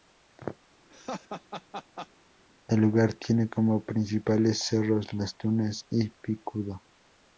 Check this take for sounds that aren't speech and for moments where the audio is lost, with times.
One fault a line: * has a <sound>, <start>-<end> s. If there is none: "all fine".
* has a laugh, 0.9-2.1 s